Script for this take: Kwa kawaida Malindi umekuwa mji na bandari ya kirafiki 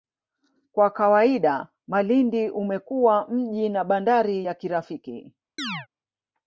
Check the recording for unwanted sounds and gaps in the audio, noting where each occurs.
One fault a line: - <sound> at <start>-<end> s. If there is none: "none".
- chirp at 5.6-5.9 s